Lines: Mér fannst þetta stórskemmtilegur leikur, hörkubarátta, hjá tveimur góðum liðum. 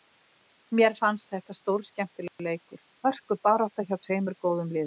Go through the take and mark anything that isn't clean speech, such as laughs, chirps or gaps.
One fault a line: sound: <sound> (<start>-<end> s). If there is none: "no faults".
sound: dropout (2.3-2.4 s)